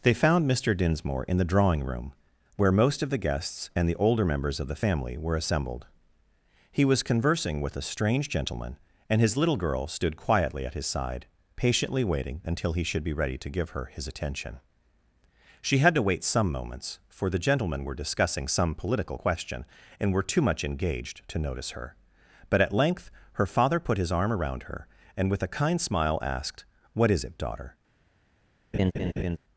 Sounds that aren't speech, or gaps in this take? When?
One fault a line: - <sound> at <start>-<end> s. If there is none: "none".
- laugh at 28.7-29.4 s